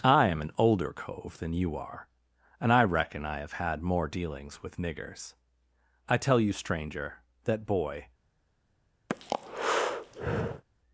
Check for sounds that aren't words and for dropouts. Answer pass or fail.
fail